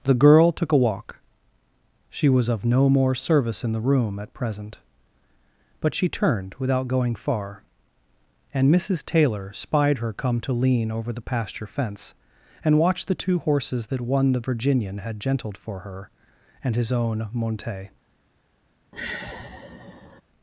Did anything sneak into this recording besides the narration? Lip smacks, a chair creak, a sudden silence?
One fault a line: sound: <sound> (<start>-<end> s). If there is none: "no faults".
sound: sigh (18.9-20.2 s)